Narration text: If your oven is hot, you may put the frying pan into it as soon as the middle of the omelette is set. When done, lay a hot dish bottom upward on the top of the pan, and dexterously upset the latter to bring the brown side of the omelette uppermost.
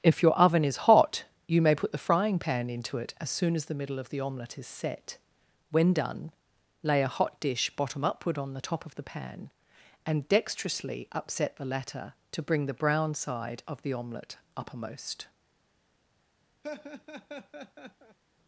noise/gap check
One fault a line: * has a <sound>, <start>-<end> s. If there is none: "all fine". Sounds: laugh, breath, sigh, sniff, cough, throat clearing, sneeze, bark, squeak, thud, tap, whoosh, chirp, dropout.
* has a laugh, 16.6-18.2 s